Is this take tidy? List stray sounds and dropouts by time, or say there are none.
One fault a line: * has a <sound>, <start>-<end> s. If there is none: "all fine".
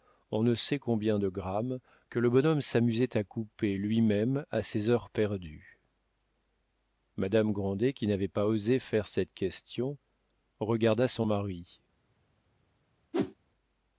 * has a whoosh, 13.1-13.3 s